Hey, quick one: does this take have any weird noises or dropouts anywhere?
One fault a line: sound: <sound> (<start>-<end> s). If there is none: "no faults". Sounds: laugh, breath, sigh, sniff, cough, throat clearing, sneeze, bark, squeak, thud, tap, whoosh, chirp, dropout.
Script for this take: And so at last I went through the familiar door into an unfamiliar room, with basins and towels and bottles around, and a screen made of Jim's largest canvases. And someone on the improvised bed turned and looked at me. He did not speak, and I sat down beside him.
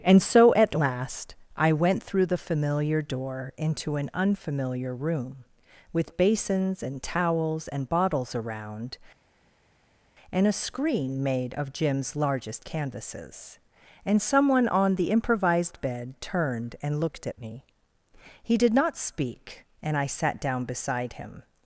no faults